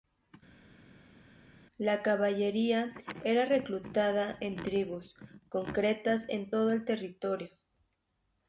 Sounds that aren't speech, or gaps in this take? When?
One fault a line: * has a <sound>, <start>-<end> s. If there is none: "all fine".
all fine